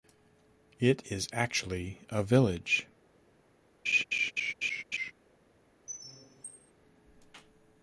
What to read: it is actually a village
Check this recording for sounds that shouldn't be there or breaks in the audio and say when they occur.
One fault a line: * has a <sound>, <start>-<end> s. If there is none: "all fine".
* has a laugh, 3.9-5.1 s
* has a squeak, 5.9-6.7 s